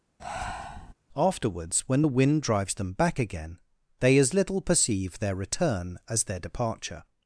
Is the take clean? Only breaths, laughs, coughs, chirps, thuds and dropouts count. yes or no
no